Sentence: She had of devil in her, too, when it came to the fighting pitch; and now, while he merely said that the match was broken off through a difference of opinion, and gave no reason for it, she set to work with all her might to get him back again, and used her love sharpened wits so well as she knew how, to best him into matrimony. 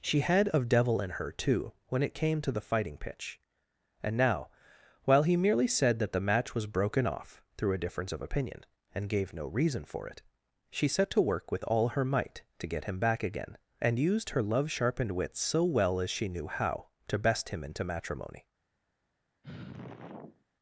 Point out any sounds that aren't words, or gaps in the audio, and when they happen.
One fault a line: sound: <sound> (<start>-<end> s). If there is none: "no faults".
sound: sigh (19.4-20.4 s)